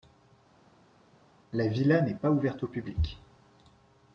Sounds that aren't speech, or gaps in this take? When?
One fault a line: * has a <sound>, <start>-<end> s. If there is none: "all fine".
all fine